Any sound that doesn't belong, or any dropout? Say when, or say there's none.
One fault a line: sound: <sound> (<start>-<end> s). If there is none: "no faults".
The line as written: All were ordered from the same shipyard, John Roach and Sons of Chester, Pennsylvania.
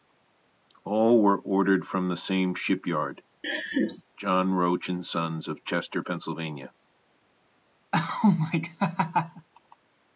sound: laugh (3.4-4.0 s)
sound: laugh (7.9-9.5 s)